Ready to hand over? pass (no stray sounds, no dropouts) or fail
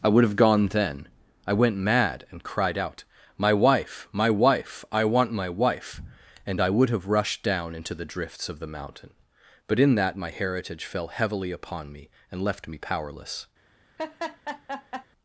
fail